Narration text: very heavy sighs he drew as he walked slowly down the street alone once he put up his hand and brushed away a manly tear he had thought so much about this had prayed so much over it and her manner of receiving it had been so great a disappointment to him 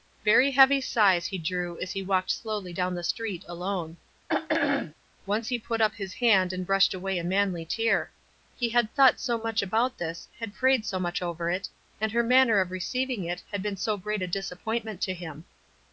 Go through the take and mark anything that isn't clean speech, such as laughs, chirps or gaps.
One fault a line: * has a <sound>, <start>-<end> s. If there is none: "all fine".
* has a throat clearing, 4.3-4.9 s